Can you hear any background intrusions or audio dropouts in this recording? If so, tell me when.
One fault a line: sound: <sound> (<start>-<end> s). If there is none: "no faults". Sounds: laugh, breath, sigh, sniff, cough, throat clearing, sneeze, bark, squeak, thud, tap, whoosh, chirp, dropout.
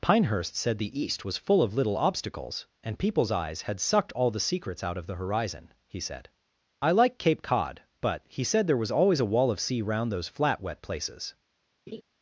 sound: laugh (11.9-12.0 s)